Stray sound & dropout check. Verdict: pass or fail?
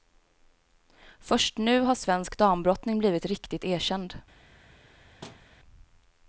fail